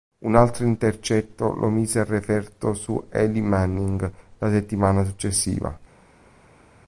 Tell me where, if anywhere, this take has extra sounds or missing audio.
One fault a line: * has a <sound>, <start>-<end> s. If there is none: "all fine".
all fine